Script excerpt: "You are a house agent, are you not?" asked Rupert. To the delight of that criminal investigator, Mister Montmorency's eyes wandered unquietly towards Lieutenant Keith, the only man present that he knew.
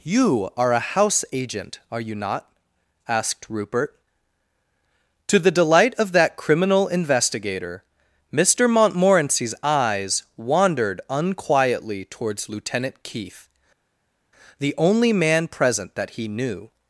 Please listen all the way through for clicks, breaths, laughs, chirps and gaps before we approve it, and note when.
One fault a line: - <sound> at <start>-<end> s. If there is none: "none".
none